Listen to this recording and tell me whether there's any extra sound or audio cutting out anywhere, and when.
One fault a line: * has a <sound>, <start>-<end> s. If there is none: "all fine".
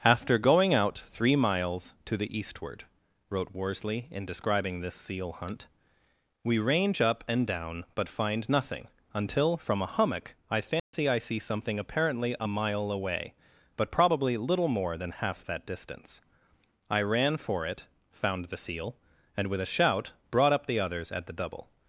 * has a dropout, 10.8-10.9 s